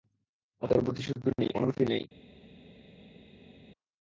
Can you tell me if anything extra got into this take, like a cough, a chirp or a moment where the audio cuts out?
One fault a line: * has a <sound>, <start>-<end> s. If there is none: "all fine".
all fine